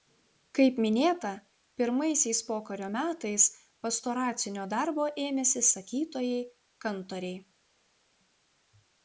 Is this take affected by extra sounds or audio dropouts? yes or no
no